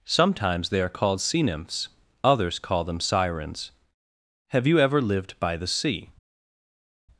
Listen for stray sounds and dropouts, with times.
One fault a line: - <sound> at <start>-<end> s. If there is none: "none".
none